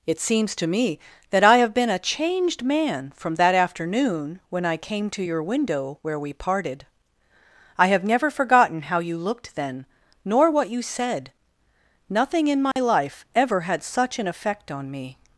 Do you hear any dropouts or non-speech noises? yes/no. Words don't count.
yes